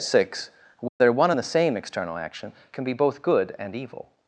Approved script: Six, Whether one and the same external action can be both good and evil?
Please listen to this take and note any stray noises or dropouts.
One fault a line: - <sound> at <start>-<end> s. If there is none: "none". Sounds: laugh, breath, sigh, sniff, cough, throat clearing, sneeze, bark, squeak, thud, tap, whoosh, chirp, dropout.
- dropout at 0.9-1.0 s